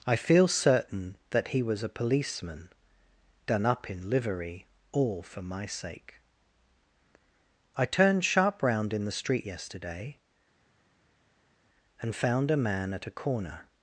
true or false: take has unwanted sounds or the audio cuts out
false